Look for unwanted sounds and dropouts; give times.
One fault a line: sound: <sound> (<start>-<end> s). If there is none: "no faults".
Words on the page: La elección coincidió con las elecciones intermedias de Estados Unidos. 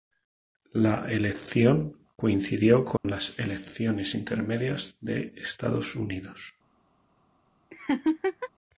sound: dropout (3.0-3.0 s)
sound: laugh (7.7-8.5 s)